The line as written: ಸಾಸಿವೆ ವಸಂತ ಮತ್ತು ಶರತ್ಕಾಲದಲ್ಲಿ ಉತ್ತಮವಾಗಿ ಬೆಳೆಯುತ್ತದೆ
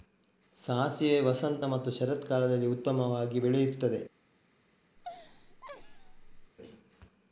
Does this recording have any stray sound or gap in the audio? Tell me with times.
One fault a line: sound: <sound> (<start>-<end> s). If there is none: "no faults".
sound: laugh (5.0-6.5 s)